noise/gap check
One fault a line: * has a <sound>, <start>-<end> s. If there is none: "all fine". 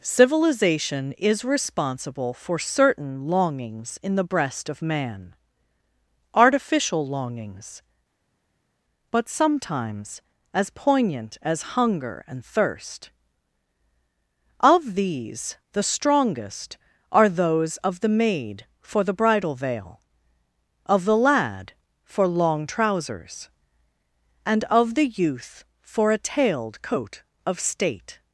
all fine